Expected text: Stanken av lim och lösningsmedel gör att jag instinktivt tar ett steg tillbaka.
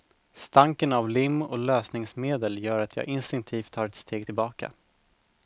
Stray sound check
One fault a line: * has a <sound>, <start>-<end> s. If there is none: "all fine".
all fine